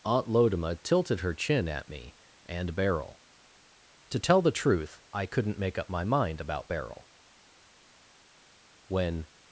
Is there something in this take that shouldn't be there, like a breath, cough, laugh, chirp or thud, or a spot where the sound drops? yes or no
no